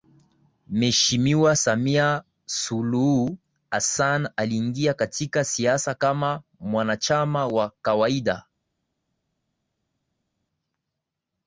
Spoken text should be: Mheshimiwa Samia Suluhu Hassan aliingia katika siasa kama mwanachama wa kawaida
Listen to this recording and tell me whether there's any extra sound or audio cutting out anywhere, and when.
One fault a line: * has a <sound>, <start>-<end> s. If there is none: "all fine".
all fine